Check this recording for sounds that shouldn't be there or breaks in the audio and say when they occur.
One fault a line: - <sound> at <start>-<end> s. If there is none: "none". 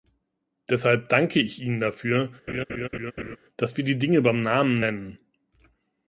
- laugh at 2.5-3.4 s